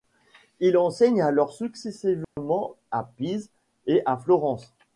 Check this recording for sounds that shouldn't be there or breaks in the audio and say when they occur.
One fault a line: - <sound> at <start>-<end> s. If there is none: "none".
- dropout at 2.2-2.4 s